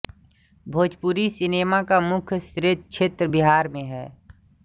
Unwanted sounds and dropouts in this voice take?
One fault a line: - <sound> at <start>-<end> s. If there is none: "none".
none